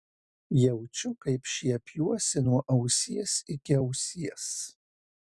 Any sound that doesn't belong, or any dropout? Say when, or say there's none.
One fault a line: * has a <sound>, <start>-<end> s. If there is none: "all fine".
all fine